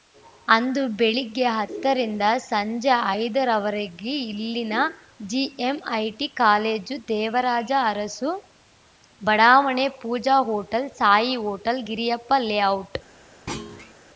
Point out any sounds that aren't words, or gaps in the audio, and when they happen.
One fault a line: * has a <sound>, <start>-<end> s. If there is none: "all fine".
* has a thud, 13.5-13.9 s